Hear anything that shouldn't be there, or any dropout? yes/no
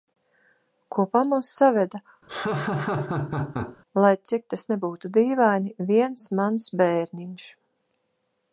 yes